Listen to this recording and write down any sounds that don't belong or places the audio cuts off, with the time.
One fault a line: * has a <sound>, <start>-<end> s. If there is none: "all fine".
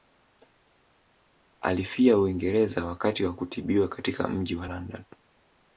all fine